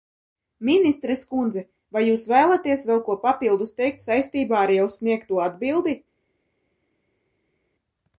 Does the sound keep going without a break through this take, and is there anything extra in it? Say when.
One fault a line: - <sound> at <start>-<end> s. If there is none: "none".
none